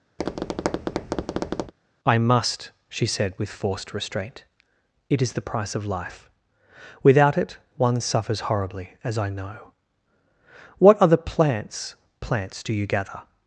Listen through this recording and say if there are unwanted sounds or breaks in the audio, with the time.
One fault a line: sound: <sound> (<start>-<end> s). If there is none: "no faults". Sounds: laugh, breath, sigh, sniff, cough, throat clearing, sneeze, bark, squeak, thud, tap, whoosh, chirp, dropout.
sound: tap (0.2-1.7 s)